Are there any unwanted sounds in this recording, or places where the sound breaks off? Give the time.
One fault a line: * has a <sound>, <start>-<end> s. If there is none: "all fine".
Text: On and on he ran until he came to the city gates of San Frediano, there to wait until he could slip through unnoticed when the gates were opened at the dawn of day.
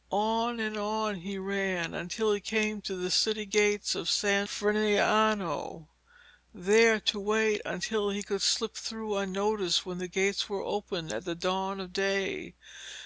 all fine